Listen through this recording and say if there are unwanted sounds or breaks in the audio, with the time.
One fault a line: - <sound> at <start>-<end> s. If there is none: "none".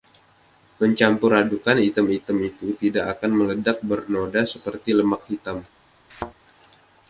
- thud at 6.1-6.3 s